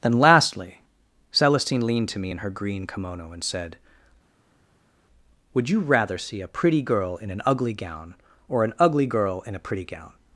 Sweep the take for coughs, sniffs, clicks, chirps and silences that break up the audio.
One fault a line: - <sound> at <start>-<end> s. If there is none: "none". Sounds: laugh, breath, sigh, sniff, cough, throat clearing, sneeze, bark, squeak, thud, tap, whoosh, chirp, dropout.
none